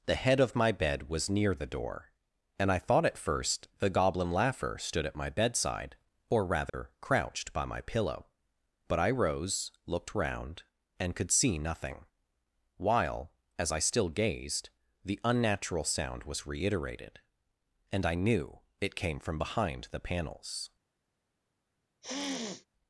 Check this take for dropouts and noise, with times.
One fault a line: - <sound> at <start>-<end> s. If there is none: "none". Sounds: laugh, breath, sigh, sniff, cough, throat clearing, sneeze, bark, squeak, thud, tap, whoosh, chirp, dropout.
- dropout at 6.7-6.7 s
- sniff at 22.0-22.7 s